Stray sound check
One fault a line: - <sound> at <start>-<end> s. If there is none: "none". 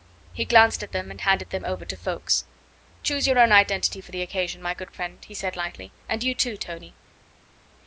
none